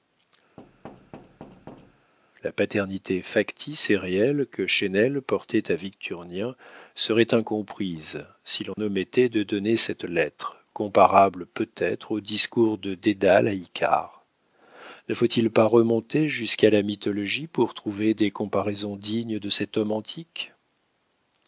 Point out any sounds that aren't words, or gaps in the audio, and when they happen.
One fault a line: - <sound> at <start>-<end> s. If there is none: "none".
- thud at 0.6-2.1 s
- dropout at 8.7-8.8 s